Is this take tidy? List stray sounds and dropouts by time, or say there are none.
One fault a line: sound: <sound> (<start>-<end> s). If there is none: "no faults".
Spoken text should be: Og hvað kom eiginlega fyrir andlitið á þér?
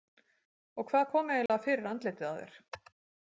sound: dropout (1.5-1.5 s)